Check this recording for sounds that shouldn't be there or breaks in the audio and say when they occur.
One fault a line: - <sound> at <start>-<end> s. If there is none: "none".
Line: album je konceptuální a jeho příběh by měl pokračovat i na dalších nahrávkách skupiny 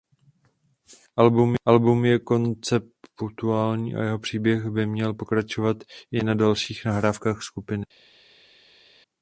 none